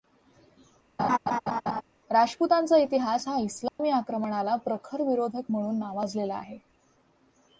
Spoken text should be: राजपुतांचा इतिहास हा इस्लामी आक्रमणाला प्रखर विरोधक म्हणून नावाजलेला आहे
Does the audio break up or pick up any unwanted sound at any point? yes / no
yes